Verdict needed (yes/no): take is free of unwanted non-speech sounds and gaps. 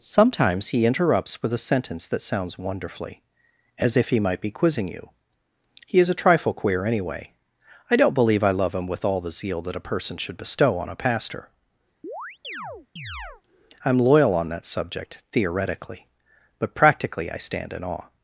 no